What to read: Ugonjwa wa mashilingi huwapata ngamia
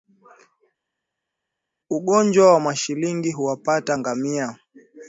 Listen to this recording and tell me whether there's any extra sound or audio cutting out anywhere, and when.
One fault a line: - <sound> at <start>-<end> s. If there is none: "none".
none